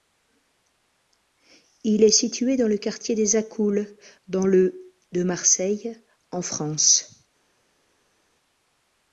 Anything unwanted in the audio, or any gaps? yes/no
no